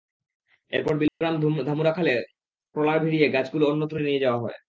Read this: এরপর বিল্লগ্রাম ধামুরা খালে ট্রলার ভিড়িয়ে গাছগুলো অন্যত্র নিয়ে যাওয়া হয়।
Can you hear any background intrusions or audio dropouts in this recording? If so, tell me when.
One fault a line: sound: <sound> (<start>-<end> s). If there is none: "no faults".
sound: dropout (1.1-1.2 s)